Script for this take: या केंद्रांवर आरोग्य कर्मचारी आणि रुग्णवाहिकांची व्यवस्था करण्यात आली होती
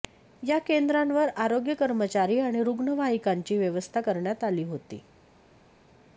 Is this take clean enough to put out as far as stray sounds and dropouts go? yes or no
yes